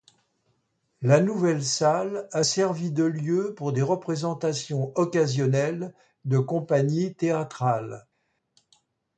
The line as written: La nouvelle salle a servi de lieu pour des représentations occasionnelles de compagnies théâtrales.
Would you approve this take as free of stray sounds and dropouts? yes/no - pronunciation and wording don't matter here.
yes